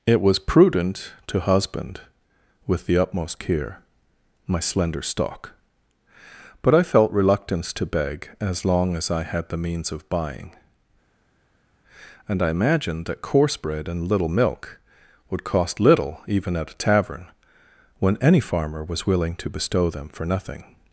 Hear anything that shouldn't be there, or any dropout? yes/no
no